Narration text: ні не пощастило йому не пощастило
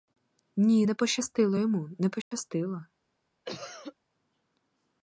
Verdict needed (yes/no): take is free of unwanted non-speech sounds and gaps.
no